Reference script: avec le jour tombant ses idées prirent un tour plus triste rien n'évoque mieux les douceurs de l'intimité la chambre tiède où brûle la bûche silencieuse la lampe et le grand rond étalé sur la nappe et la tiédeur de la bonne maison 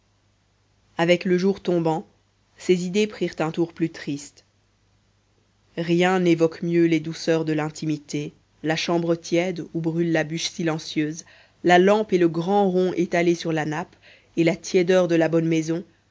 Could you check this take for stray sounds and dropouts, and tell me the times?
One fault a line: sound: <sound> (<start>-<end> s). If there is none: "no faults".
no faults